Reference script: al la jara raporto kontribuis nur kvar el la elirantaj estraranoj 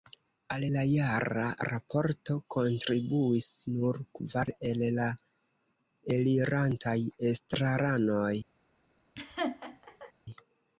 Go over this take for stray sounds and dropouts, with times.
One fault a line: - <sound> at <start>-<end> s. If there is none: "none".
- laugh at 9.2-10.1 s